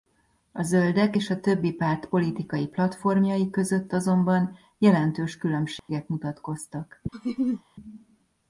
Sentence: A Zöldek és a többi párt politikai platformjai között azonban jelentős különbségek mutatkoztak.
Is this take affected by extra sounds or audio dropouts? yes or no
yes